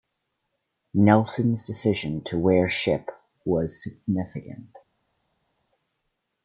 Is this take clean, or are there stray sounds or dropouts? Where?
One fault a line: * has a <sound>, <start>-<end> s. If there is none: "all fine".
all fine